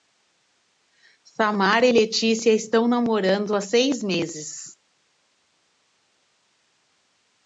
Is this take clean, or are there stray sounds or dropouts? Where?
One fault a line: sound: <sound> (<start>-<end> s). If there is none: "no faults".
no faults